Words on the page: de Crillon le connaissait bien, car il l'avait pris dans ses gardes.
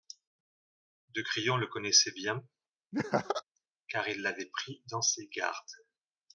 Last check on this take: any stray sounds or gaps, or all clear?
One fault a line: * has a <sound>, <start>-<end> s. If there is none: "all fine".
* has a laugh, 2.9-3.4 s